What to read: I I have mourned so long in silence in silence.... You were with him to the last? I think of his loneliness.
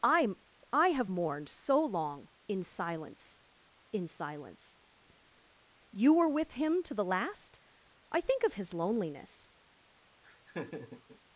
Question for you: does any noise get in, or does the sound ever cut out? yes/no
yes